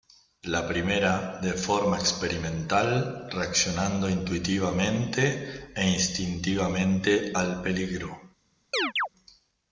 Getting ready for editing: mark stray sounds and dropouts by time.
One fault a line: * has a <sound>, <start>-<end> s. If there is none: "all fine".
* has a chirp, 8.7-9.1 s